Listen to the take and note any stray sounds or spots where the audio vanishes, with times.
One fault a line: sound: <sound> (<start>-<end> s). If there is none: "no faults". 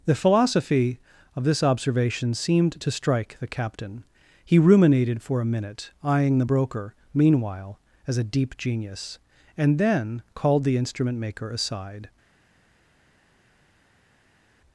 no faults